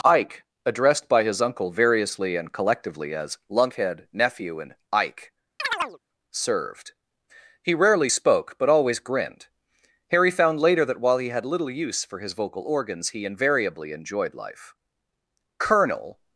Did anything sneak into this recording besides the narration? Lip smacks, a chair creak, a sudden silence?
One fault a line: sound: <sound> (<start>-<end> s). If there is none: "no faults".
sound: chirp (5.6-6.0 s)